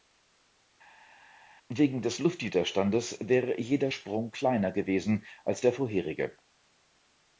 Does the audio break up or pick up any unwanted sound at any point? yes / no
no